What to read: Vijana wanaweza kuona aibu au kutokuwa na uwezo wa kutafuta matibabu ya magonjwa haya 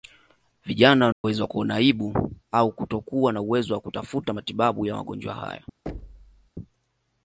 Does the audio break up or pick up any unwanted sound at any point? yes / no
yes